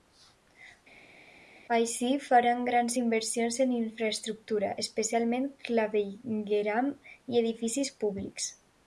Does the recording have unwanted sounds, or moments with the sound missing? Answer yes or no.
no